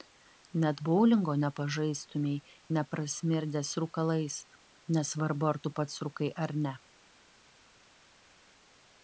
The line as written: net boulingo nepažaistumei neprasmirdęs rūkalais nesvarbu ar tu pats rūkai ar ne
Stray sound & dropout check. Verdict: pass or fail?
pass